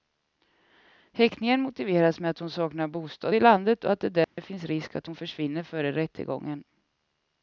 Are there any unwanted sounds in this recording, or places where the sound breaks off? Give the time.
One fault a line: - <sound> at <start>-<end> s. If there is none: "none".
- dropout at 4.2-4.4 s